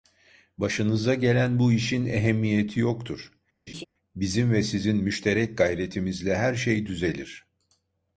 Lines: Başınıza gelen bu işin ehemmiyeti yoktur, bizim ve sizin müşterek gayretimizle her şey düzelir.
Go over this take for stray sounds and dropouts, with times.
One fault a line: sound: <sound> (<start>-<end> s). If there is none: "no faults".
sound: laugh (3.7-3.9 s)